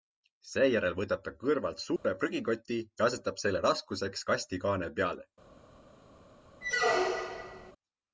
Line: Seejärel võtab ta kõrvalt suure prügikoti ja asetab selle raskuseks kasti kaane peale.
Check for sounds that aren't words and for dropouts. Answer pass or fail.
fail